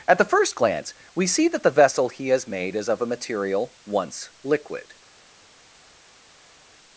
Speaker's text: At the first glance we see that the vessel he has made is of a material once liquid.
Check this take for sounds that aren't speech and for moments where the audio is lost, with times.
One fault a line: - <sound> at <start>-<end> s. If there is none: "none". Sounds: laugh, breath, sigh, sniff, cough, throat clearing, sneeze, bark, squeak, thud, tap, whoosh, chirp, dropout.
none